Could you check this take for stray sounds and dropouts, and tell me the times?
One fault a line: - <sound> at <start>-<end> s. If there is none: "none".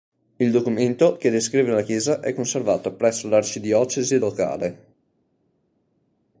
none